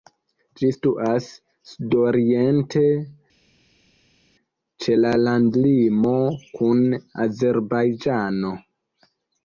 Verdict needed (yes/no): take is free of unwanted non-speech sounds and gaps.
yes